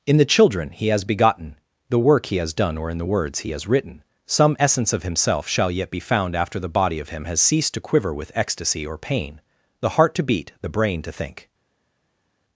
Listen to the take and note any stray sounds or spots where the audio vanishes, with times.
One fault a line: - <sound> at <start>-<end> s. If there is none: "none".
none